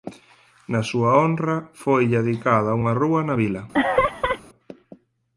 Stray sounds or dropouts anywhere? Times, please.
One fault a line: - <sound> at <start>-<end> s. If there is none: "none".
- laugh at 3.7-4.4 s